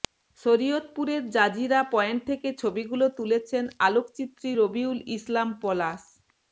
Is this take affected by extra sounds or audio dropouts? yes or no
no